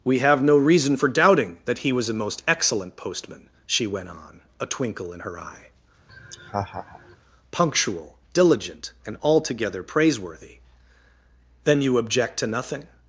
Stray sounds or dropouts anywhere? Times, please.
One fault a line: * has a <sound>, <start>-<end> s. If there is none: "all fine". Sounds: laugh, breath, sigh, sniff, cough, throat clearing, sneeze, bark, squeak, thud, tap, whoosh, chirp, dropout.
* has a laugh, 6.1-7.2 s